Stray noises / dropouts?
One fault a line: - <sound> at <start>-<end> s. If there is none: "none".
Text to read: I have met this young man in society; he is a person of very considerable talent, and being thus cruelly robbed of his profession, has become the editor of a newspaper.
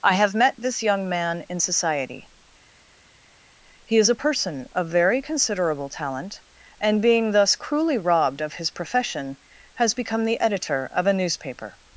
none